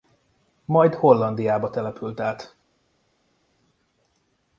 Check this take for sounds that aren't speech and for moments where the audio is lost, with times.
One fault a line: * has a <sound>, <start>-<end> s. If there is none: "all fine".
all fine